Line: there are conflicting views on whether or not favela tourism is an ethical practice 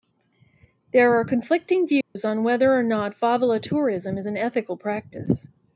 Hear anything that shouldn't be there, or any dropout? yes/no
yes